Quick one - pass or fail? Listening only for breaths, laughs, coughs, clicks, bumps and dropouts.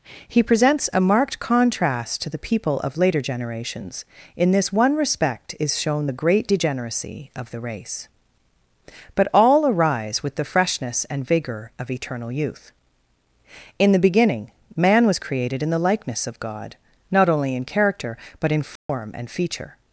fail